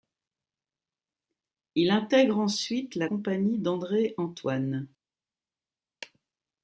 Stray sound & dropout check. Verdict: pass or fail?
pass